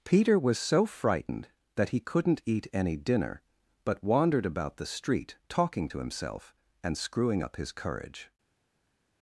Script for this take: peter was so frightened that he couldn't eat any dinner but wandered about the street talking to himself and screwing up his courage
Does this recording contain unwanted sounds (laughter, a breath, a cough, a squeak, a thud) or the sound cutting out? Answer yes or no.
no